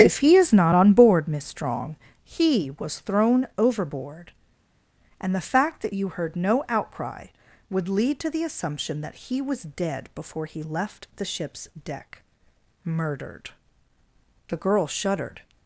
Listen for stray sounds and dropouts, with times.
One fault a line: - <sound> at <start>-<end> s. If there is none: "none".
none